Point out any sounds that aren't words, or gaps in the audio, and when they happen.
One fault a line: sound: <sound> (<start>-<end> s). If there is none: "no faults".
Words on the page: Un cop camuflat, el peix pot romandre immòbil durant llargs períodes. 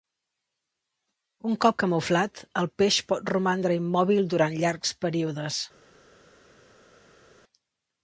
no faults